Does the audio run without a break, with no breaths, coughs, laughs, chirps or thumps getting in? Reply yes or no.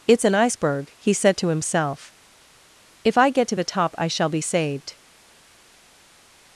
yes